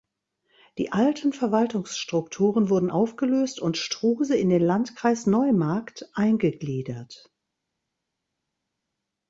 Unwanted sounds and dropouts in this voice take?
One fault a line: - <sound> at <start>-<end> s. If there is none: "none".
none